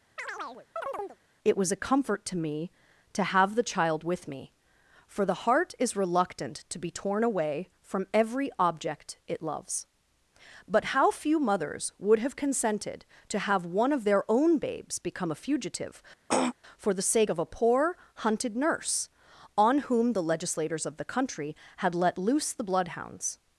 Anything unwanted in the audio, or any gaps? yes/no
yes